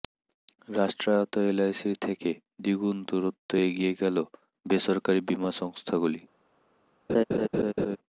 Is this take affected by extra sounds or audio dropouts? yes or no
yes